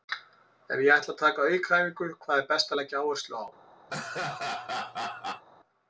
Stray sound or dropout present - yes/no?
yes